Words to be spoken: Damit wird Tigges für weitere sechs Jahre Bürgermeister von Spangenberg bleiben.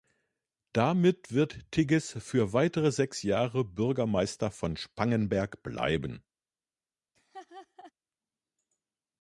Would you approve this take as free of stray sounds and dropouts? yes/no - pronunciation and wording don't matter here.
no